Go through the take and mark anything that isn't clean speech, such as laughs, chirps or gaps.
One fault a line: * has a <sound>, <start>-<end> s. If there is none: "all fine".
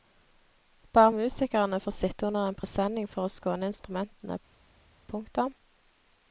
all fine